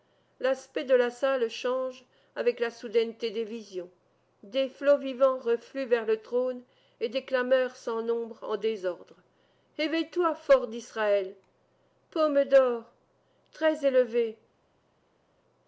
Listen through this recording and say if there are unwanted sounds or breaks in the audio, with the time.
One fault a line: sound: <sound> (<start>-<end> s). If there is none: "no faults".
no faults